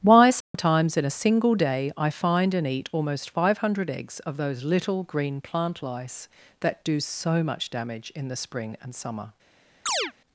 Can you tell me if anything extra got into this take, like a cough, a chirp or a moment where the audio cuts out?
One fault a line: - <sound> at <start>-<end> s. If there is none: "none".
- dropout at 0.4-0.5 s
- chirp at 9.9-10.1 s